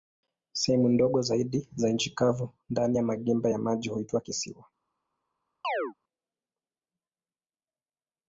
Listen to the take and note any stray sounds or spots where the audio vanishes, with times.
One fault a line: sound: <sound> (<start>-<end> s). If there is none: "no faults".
sound: chirp (5.6-5.9 s)